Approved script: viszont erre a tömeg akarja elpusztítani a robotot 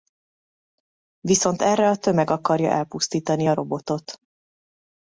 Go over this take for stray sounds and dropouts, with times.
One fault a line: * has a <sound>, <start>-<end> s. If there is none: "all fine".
all fine